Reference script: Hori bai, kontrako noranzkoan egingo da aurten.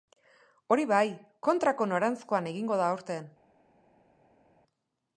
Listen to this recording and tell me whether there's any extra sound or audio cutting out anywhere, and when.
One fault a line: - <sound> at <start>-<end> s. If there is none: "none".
none